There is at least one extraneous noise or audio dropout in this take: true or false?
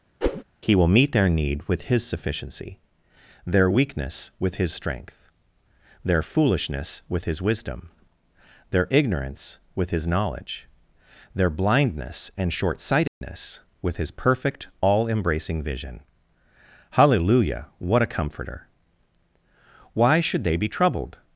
true